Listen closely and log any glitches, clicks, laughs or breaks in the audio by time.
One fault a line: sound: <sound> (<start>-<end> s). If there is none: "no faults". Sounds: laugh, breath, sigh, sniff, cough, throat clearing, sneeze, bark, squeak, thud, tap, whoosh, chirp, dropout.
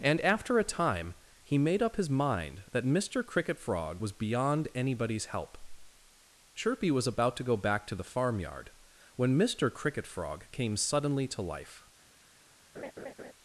sound: laugh (12.7-13.3 s)